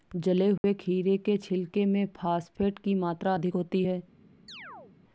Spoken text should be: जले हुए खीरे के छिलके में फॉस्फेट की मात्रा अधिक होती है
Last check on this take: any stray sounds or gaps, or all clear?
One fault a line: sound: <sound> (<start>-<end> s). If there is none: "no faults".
sound: dropout (0.6-0.6 s)
sound: chirp (4.5-4.9 s)